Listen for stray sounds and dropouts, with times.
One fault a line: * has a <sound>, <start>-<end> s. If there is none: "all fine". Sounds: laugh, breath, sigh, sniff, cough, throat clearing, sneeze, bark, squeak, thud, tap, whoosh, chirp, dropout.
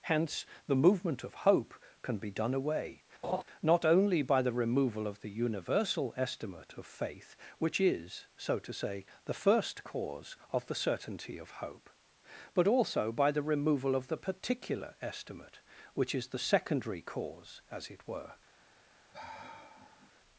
* has a laugh, 3.2-3.4 s
* has a sigh, 19.1-20.1 s